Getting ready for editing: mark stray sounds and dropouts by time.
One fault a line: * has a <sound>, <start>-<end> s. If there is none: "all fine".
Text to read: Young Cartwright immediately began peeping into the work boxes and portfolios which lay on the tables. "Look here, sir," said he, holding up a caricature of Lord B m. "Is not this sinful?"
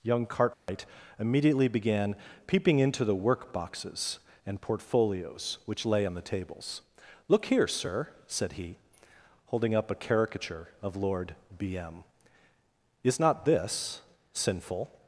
* has a dropout, 0.5-0.7 s